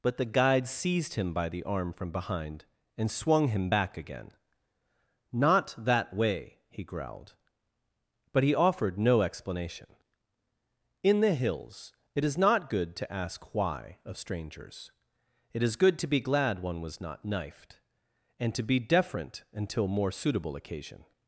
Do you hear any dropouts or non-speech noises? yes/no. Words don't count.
no